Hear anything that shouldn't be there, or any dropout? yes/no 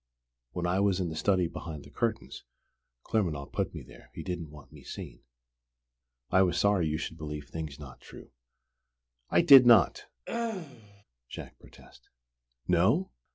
yes